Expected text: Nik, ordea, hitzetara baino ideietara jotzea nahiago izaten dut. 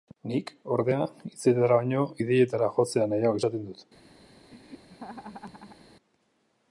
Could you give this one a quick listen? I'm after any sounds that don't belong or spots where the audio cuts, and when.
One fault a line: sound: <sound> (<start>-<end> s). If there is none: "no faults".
sound: laugh (4.5-5.9 s)